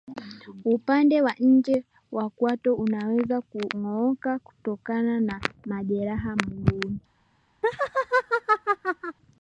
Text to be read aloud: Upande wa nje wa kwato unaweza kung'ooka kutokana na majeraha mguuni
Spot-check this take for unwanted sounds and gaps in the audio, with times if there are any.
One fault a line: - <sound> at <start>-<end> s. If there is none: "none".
- laugh at 7.6-9.2 s